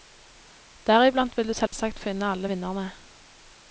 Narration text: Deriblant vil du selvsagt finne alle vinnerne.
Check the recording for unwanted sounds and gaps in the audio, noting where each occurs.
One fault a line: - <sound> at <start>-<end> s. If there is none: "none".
- dropout at 1.7-1.7 s